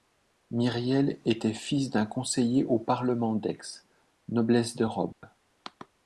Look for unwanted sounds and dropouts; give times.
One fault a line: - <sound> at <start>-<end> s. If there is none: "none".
- dropout at 5.1-5.2 s